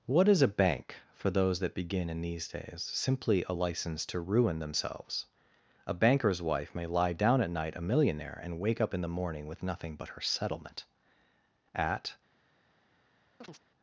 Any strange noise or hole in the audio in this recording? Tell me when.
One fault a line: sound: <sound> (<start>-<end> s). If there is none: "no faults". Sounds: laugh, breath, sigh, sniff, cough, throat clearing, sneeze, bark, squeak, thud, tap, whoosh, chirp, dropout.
sound: chirp (13.4-13.6 s)